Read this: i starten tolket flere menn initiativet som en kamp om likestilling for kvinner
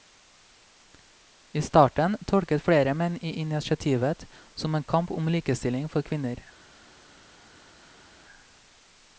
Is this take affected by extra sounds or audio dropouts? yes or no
no